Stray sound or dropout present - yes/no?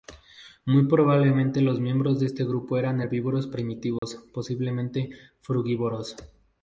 yes